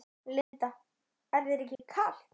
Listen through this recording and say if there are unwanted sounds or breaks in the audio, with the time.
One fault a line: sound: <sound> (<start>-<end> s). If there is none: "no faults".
sound: dropout (0.4-0.5 s)
sound: dropout (1.8-1.8 s)